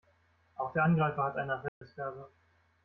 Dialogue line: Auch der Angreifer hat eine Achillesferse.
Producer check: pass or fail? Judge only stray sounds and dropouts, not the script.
fail